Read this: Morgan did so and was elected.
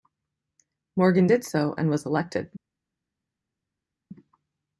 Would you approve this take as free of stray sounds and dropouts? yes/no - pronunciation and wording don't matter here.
yes